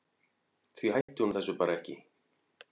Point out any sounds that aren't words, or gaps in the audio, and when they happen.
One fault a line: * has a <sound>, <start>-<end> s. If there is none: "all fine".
* has a dropout, 1.0-1.1 s